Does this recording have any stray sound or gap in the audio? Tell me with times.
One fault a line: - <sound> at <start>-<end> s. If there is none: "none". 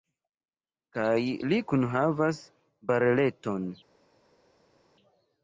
none